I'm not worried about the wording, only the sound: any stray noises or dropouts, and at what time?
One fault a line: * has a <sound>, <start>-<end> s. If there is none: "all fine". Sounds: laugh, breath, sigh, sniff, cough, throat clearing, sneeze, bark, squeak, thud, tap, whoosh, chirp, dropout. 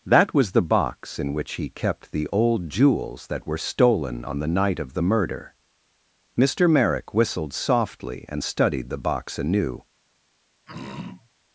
* has a throat clearing, 10.7-11.3 s